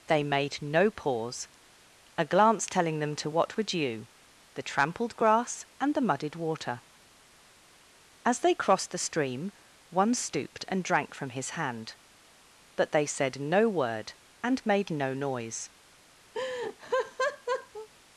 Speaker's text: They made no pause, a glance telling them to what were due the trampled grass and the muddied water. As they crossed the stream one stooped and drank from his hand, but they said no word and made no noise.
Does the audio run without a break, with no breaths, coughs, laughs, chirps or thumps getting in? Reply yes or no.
no